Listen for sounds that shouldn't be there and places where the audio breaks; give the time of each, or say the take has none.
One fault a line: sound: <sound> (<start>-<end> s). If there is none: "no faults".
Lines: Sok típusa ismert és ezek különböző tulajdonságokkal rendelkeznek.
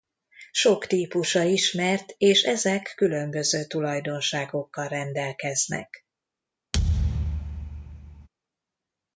sound: thud (6.7-8.3 s)